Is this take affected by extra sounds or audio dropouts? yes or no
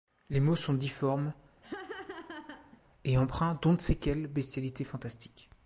yes